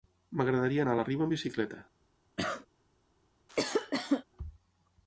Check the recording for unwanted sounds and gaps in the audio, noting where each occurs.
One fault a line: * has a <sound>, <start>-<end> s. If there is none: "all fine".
* has a cough, 2.4-2.7 s
* has a cough, 3.5-4.2 s